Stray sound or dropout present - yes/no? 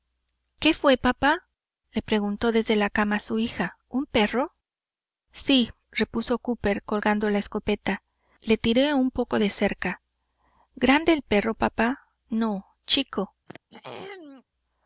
yes